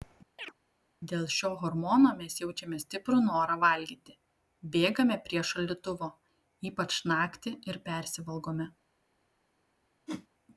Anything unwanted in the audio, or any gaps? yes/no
yes